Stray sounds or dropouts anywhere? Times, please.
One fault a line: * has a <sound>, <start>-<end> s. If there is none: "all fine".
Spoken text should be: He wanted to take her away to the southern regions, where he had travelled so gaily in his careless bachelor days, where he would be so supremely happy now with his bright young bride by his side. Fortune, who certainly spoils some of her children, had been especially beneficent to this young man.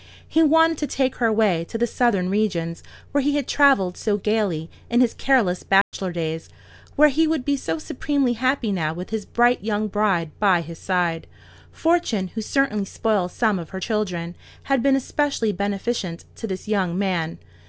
* has a dropout, 5.8-5.9 s